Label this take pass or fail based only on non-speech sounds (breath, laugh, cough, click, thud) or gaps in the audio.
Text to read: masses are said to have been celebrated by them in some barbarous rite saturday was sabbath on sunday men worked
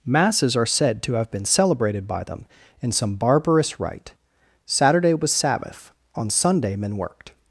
pass